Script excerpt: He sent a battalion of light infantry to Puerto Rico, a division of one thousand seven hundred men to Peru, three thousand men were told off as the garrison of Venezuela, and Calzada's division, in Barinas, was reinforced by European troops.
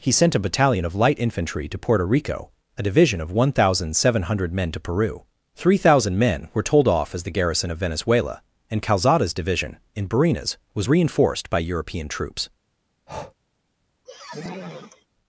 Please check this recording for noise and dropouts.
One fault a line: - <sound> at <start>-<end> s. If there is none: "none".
- breath at 13.1-13.3 s
- sniff at 14.1-15.1 s